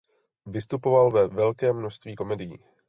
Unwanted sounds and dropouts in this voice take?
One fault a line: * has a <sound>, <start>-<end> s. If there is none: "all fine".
all fine